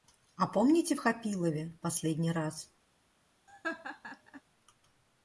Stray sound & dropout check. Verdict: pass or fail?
fail